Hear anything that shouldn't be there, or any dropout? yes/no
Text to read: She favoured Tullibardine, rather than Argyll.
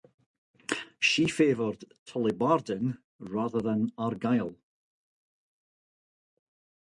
no